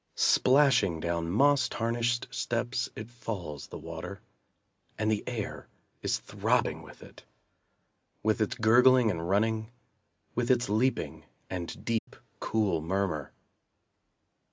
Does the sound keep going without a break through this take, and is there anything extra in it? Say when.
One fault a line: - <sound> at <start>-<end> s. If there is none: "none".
- dropout at 12.0-12.1 s